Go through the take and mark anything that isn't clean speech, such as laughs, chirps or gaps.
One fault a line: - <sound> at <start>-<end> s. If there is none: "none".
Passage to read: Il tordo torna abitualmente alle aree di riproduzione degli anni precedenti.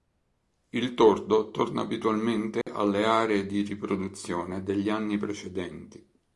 - dropout at 2.6-2.7 s